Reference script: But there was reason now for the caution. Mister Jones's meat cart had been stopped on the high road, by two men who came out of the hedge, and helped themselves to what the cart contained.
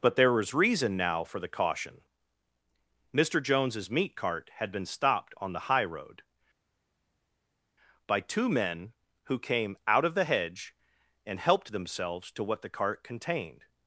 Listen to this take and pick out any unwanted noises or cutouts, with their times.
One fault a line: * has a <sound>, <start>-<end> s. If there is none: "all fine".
all fine